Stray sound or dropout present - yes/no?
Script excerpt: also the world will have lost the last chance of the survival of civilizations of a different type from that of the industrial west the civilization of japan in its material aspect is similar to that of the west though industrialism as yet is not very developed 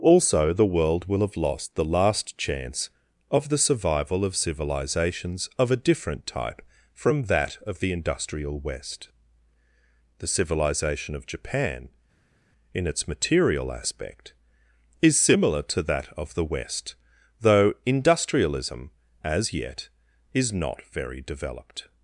no